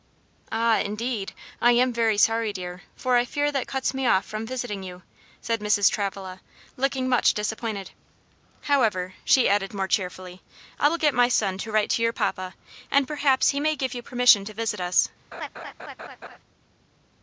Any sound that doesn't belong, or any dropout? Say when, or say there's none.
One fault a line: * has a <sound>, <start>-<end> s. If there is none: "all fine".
* has a laugh, 15.3-16.4 s